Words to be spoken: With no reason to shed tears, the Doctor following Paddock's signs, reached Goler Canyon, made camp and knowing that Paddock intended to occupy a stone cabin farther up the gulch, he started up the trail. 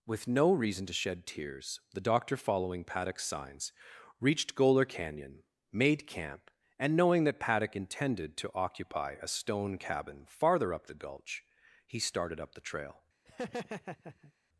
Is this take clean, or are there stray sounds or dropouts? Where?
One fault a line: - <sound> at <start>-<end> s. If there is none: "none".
- laugh at 13.3-14.3 s